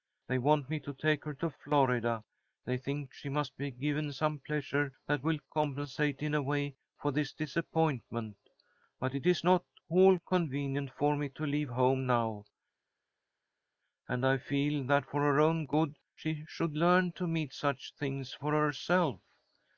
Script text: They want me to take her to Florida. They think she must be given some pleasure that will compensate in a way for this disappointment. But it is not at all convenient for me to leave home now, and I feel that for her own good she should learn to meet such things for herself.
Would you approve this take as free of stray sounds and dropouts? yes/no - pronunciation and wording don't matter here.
yes